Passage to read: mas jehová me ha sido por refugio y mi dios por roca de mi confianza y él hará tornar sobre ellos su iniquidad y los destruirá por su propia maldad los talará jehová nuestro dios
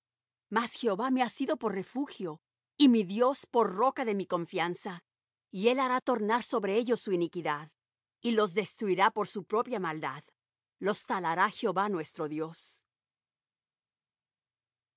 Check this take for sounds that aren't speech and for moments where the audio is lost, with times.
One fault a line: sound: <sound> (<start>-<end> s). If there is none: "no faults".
no faults